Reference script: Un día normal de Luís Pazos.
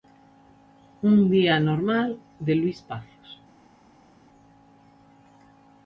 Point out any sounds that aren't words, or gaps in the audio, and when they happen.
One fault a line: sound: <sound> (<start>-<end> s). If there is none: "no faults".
no faults